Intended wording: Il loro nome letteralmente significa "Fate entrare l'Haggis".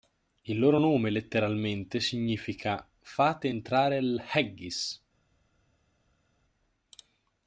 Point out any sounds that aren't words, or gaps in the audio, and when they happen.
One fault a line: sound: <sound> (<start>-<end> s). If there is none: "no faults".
no faults